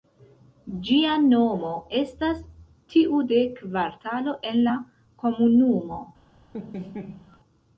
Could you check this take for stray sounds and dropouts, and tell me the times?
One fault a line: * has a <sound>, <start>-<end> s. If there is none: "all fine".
* has a laugh, 6.5-7.4 s